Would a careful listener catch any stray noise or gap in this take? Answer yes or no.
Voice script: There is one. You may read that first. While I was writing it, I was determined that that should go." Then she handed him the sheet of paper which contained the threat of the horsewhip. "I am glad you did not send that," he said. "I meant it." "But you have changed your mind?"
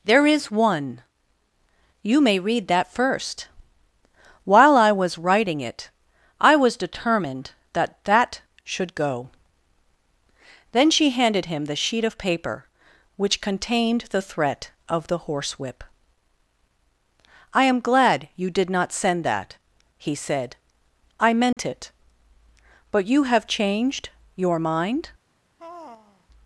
yes